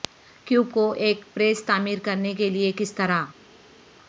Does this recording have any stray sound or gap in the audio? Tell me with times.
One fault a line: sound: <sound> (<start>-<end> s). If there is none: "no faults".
no faults